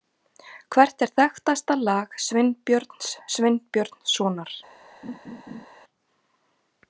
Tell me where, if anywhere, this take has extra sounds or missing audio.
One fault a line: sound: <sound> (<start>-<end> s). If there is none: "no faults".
sound: laugh (5.0-5.7 s)